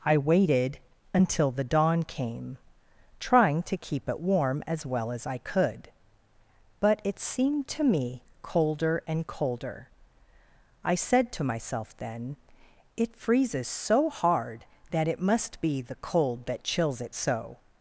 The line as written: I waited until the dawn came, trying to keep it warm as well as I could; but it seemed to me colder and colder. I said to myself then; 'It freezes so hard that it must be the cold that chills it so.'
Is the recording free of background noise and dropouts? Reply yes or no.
yes